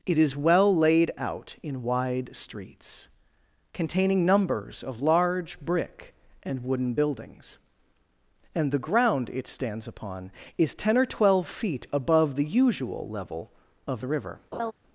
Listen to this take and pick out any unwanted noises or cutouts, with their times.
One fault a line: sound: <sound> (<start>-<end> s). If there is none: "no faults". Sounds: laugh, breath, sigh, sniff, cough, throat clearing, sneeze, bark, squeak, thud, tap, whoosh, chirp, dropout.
sound: laugh (14.5-14.7 s)